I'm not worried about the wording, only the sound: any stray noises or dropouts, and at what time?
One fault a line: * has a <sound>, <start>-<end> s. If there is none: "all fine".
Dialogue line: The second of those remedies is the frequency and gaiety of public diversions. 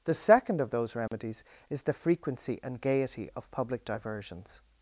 * has a dropout, 1.1-1.1 s